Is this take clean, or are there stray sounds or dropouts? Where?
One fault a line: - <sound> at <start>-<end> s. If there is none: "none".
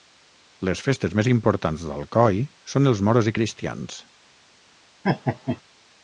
- laugh at 5.0-5.6 s